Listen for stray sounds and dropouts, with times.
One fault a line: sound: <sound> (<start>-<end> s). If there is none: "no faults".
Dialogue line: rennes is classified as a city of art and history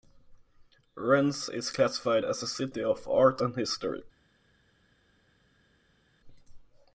no faults